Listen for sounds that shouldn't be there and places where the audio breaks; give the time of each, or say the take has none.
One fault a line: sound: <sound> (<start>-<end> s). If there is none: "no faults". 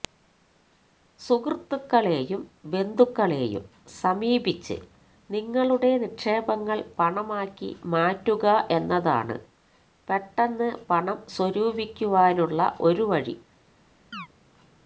sound: chirp (14.1-14.3 s)